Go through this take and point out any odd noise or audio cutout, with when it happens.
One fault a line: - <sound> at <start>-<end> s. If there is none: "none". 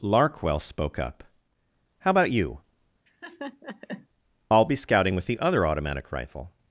- laugh at 3.1-4.1 s